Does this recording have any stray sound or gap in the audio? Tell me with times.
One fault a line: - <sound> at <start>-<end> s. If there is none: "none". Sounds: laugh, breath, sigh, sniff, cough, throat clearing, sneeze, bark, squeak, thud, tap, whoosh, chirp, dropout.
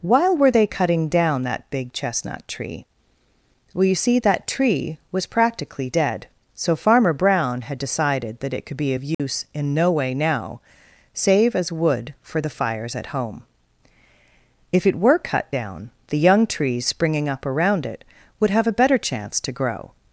- dropout at 9.1-9.2 s